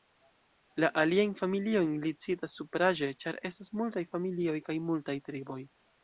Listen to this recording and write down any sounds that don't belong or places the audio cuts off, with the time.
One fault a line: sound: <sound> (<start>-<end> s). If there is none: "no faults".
no faults